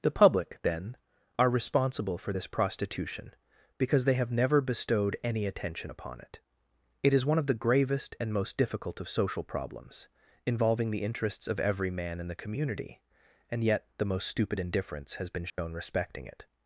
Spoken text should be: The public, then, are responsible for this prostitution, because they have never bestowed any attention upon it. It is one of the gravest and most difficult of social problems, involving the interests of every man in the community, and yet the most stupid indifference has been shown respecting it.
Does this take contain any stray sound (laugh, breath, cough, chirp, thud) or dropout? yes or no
yes